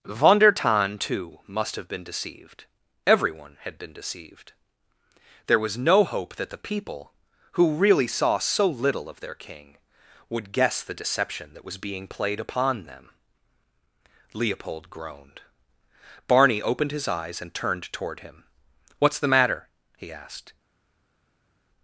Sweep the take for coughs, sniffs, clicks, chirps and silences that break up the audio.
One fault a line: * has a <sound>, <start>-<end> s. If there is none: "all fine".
all fine